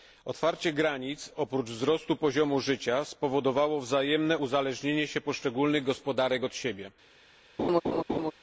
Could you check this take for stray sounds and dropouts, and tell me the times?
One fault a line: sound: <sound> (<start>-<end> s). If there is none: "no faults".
sound: laugh (7.6-8.3 s)